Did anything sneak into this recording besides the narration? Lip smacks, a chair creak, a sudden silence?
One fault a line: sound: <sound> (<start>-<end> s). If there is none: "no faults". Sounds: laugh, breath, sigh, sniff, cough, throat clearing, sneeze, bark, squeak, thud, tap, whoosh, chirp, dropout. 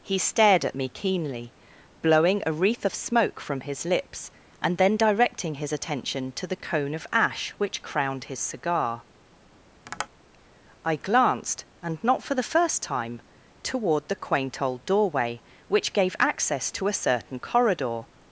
sound: tap (9.8-10.1 s)